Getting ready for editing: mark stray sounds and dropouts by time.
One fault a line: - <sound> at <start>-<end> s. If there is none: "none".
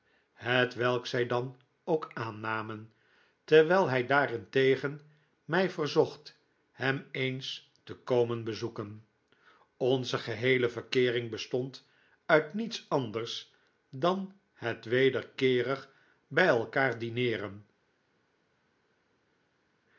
none